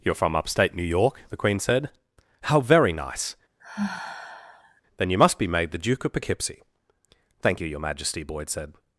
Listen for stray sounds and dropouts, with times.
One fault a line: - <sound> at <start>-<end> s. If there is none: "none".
- sigh at 3.6-4.8 s